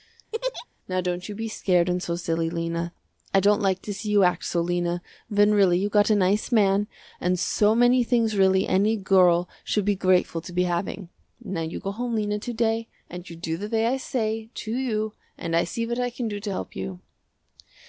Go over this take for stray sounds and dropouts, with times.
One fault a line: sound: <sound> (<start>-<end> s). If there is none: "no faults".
sound: laugh (0.3-0.7 s)